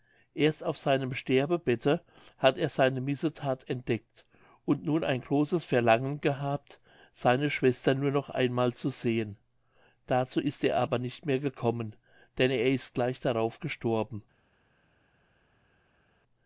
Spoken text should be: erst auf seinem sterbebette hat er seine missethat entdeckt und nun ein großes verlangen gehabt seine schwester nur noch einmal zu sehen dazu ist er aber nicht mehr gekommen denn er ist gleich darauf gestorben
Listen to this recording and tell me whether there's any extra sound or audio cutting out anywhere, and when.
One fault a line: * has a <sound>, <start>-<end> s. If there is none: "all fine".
all fine